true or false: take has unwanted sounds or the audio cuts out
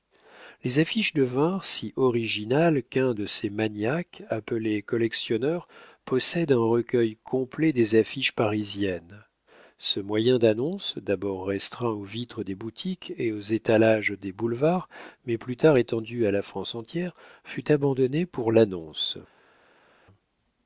false